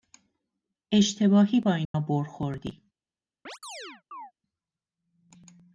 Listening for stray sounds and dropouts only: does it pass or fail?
fail